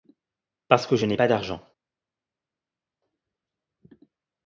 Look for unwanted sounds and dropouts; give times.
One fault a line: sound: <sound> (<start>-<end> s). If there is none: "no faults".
no faults